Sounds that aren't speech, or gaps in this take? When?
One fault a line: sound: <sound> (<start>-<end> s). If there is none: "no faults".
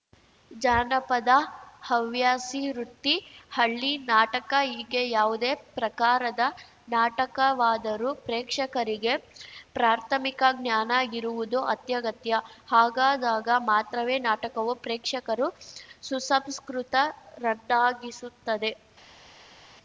no faults